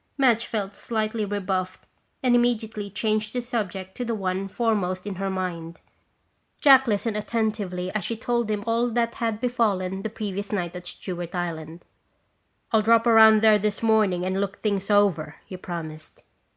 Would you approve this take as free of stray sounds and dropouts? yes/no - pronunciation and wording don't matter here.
yes